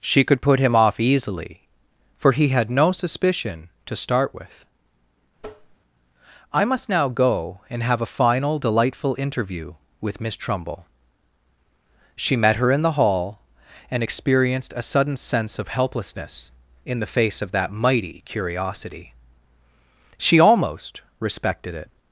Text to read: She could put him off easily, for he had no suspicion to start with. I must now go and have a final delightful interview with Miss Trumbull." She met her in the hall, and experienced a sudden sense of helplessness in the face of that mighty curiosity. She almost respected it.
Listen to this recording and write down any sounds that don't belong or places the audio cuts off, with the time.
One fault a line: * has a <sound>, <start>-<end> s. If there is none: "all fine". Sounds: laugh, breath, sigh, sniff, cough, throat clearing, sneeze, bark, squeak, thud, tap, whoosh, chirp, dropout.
* has a tap, 5.4-5.8 s